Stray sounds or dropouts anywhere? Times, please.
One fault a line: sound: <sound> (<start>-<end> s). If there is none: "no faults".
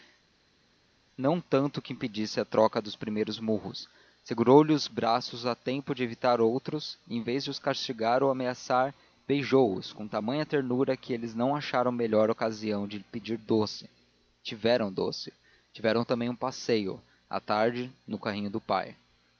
no faults